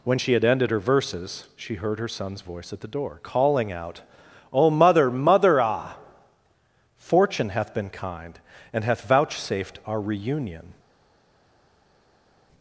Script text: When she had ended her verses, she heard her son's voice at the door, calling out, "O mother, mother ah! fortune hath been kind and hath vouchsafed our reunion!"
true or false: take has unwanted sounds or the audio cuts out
false